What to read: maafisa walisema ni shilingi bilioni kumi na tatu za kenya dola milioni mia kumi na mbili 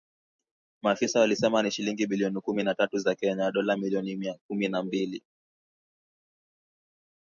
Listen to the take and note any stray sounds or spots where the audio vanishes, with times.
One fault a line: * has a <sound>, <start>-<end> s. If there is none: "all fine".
all fine